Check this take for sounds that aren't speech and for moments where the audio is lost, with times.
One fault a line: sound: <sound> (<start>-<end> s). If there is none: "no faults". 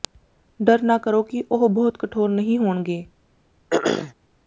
sound: throat clearing (3.7-4.1 s)